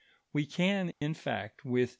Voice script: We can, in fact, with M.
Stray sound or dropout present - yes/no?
yes